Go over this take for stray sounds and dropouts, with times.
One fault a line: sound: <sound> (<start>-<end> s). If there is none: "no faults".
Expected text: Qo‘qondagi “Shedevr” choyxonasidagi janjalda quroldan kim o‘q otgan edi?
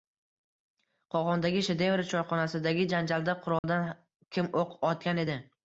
sound: dropout (3.6-3.6 s)